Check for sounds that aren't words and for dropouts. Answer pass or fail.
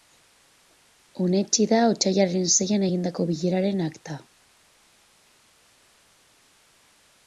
pass